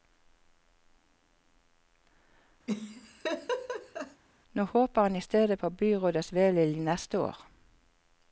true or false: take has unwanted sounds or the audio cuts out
true